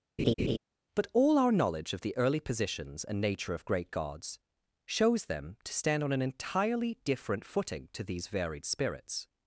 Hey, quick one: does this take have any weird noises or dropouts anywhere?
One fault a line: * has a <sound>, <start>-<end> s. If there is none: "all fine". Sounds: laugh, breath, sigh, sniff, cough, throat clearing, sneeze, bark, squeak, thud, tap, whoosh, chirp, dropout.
* has a laugh, 0.2-0.6 s